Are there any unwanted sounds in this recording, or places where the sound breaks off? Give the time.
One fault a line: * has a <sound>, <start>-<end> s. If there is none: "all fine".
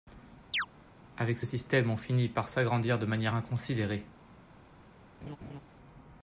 * has a chirp, 0.5-0.7 s
* has a laugh, 5.2-5.6 s